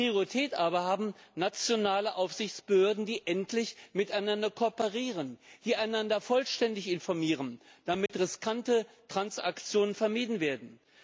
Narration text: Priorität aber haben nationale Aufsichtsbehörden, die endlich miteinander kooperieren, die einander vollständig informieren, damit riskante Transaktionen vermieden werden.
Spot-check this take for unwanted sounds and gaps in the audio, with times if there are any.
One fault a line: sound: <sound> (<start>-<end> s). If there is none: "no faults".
sound: dropout (8.1-8.1 s)